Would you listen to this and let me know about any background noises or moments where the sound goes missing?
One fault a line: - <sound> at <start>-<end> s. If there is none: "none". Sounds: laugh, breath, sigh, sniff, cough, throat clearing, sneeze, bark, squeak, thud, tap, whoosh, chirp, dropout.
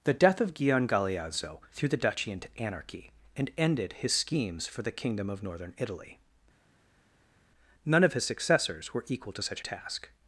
none